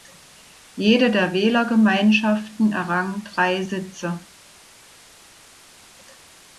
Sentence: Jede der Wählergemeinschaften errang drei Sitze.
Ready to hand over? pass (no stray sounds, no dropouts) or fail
pass